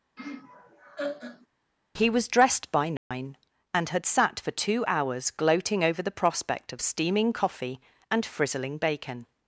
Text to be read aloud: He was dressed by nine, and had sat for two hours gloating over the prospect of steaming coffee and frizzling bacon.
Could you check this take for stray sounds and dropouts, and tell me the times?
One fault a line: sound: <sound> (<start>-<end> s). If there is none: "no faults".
sound: laugh (0.2-1.5 s)
sound: dropout (3.0-3.1 s)